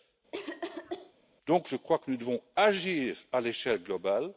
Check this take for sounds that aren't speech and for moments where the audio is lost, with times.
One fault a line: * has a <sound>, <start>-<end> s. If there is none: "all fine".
* has a cough, 0.3-1.1 s